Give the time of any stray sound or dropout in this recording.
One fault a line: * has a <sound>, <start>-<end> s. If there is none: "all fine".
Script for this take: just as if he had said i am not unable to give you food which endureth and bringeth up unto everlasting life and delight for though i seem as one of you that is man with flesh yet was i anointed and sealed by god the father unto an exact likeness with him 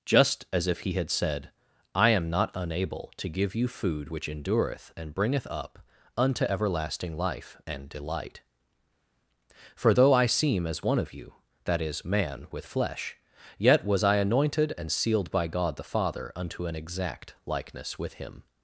all fine